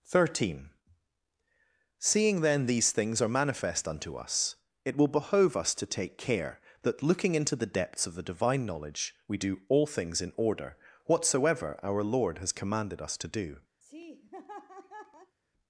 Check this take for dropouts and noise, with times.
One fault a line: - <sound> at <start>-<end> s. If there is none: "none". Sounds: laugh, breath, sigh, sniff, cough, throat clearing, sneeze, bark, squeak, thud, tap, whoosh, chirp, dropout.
- laugh at 13.8-15.4 s